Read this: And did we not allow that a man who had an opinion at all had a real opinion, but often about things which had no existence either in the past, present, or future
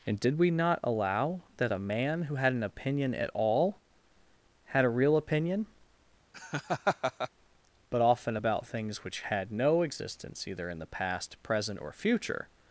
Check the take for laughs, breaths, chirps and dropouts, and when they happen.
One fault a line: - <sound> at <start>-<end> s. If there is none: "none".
- laugh at 6.3-7.3 s